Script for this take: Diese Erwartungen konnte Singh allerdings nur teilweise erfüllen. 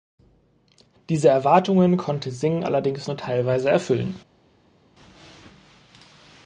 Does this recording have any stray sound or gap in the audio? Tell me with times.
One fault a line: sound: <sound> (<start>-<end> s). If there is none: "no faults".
no faults